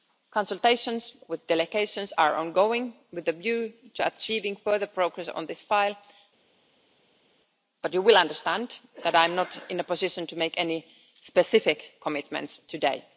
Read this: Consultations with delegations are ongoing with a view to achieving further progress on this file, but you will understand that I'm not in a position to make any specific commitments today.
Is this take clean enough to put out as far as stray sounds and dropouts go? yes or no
yes